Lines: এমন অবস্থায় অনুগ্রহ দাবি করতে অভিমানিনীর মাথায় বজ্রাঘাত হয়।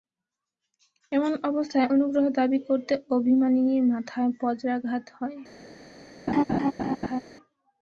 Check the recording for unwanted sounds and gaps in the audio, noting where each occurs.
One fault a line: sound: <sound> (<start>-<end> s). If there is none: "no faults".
sound: laugh (6.3-7.2 s)